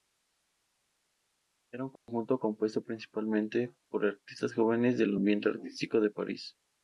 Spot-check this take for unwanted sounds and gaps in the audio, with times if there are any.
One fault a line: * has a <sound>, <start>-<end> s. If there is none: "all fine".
* has a dropout, 2.0-2.1 s